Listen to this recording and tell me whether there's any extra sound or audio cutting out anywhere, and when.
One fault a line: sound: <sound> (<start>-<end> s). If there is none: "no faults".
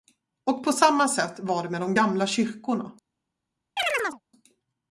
sound: chirp (3.8-4.2 s)